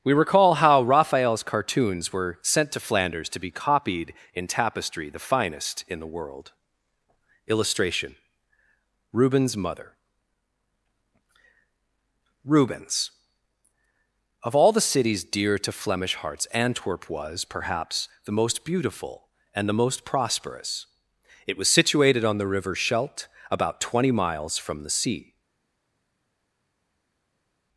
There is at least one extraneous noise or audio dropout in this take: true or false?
false